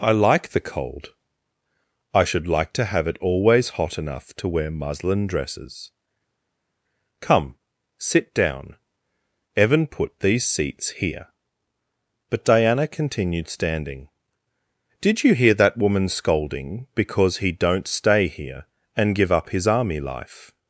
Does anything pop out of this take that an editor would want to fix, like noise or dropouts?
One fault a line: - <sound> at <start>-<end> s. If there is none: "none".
none